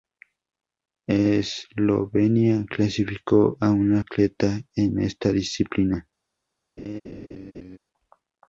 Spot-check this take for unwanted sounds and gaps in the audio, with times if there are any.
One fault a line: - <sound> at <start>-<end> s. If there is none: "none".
- laugh at 6.8-7.8 s